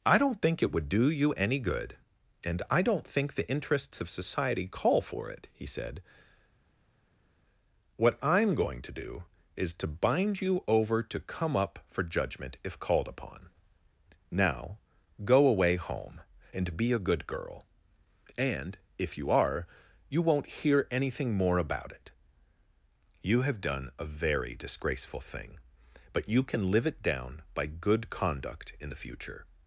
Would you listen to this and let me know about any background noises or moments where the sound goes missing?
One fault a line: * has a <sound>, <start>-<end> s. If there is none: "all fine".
all fine